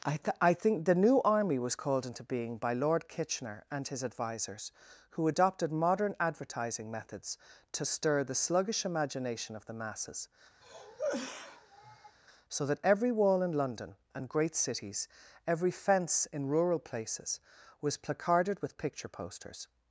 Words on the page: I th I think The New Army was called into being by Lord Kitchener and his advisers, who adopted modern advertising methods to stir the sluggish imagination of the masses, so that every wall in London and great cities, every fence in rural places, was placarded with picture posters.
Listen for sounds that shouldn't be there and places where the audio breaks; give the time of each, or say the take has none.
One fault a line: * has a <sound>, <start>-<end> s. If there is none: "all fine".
* has a cough, 10.6-12.2 s